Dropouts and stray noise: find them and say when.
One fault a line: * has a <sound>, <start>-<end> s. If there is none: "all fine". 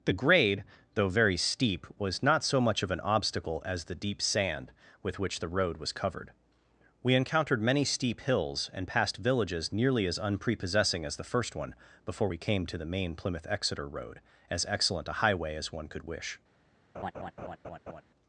* has a laugh, 16.9-18.0 s